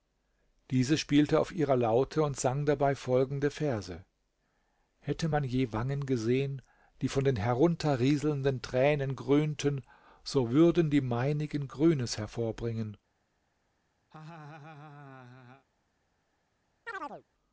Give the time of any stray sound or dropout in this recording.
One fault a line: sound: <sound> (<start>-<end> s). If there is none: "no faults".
sound: laugh (14.1-15.7 s)
sound: chirp (16.9-17.2 s)